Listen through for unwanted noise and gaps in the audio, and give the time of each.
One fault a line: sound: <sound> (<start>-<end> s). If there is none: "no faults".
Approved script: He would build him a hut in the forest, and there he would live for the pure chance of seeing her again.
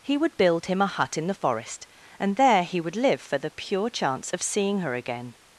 no faults